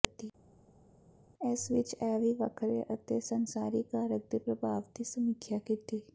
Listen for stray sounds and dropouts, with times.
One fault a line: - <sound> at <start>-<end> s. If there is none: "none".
none